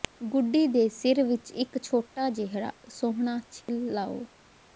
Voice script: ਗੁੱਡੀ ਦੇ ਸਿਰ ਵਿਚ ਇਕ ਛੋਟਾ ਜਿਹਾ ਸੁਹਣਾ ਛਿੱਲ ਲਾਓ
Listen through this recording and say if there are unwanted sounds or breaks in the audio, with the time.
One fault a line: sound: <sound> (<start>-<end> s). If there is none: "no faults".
sound: dropout (3.6-3.7 s)